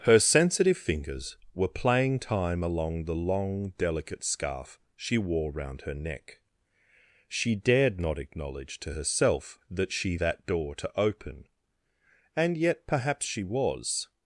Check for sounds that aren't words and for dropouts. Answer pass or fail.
pass